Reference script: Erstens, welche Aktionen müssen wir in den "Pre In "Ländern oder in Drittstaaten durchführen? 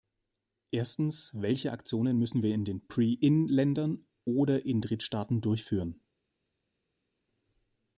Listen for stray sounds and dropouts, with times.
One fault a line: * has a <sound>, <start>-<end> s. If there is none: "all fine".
all fine